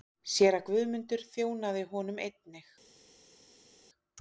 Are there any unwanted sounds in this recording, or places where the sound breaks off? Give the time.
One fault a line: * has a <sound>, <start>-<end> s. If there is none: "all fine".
all fine